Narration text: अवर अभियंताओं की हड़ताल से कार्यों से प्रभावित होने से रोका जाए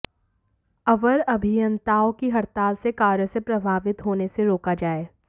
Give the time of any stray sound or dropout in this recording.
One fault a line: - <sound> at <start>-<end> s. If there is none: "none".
none